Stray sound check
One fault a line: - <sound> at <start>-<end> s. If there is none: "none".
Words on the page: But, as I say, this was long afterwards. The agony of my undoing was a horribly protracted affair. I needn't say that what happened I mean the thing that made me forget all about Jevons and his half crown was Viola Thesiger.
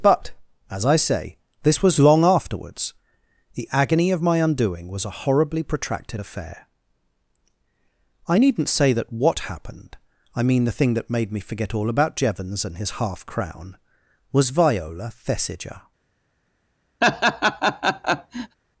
- laugh at 17.0-18.6 s